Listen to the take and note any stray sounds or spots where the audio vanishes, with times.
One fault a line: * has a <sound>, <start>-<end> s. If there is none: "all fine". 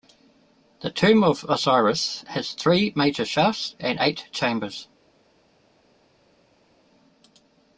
all fine